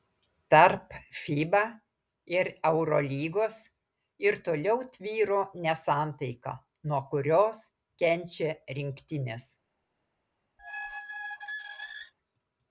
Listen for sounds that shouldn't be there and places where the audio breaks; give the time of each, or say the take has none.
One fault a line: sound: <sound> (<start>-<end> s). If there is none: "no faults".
sound: squeak (10.6-12.1 s)